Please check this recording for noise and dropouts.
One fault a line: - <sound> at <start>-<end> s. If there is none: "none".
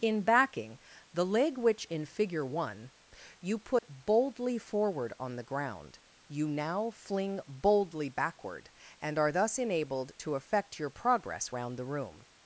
- dropout at 3.8-3.8 s